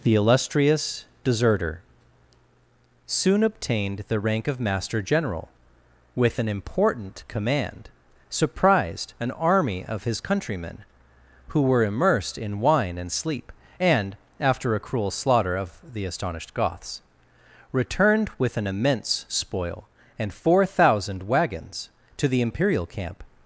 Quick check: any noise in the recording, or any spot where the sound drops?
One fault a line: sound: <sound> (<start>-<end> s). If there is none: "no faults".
no faults